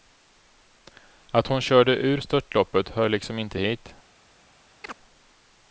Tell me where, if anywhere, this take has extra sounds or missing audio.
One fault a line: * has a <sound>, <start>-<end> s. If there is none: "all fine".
* has a chirp, 4.8-5.0 s